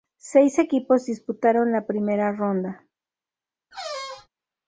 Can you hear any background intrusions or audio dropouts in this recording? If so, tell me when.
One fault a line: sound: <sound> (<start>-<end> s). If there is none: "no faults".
sound: squeak (3.7-4.3 s)